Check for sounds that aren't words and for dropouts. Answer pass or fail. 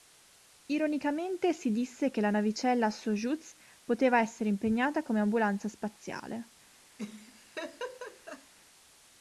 fail